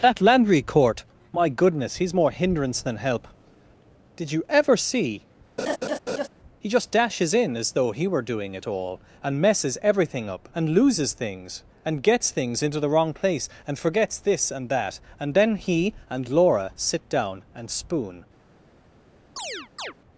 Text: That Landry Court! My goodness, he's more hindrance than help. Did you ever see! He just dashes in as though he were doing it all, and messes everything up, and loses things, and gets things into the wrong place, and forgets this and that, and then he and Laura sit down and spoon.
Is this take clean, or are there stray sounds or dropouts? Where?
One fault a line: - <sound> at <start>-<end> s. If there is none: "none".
- laugh at 5.6-6.3 s
- chirp at 19.4-19.9 s